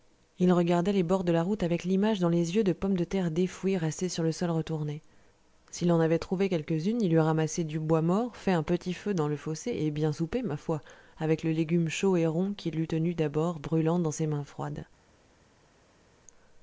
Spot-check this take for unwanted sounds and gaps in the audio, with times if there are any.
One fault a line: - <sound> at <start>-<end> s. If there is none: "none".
none